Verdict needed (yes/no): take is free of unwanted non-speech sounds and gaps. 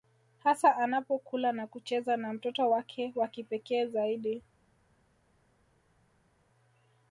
yes